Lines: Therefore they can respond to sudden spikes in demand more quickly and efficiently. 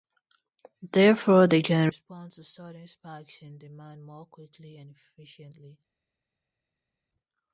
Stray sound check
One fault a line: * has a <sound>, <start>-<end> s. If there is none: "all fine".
all fine